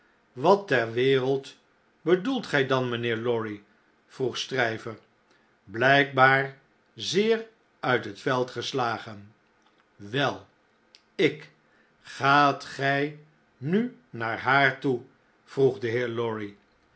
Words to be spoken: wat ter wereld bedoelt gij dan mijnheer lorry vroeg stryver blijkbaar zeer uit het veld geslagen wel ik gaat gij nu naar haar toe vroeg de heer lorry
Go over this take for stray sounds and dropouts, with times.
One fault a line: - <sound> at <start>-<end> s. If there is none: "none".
none